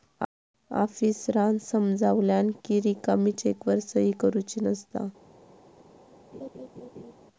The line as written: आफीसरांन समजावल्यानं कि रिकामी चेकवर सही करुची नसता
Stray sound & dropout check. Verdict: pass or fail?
fail